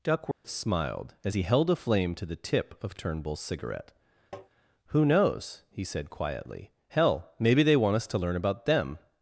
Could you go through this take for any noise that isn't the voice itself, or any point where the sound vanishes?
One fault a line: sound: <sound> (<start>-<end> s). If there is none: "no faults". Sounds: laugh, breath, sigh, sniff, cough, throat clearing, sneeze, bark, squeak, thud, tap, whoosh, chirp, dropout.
sound: dropout (0.3-0.4 s)
sound: tap (4.3-4.5 s)